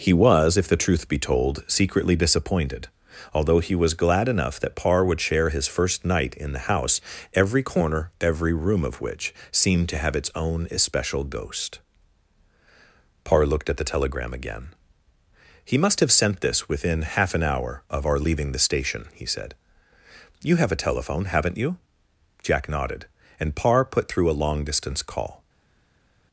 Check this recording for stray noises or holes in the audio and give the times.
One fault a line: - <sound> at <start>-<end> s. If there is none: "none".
none